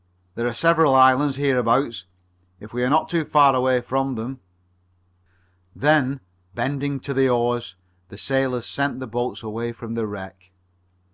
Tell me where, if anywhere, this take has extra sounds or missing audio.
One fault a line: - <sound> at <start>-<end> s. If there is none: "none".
none